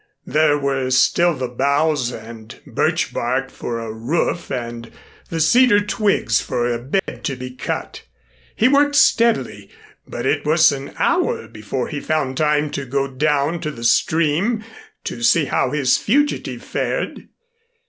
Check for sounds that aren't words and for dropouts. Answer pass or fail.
fail